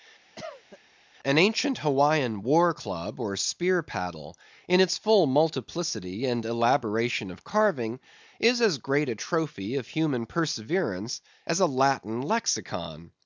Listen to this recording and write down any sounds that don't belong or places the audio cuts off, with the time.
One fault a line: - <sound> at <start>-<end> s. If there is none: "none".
- cough at 0.4-0.8 s